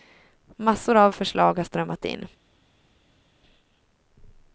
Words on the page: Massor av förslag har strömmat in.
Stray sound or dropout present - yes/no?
no